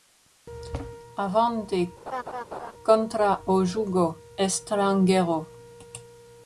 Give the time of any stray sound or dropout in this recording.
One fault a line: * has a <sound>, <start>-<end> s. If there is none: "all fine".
* has a laugh, 2.1-2.7 s